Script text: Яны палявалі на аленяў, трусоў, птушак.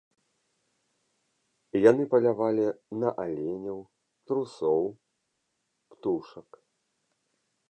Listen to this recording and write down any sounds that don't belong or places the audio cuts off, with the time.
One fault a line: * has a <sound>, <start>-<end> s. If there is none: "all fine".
all fine